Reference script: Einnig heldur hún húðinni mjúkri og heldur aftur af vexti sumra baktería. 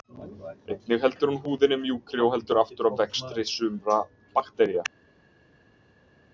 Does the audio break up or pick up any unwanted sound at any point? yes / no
no